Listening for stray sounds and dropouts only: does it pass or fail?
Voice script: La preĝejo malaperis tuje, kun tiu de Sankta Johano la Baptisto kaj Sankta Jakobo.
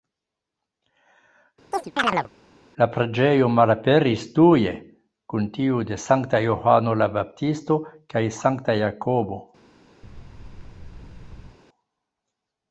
fail